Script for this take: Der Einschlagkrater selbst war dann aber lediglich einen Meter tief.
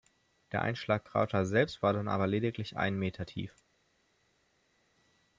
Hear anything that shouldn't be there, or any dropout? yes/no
no